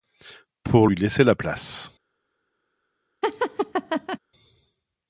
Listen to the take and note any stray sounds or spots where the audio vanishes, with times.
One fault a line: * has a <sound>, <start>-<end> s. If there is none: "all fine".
* has a laugh, 3.2-4.2 s